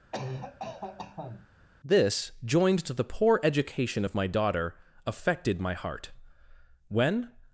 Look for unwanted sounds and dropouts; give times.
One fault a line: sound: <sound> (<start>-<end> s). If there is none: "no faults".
sound: cough (0.1-1.5 s)